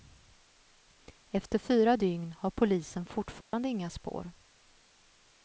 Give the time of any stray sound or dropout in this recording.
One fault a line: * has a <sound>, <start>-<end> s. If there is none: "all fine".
* has a dropout, 3.4-3.5 s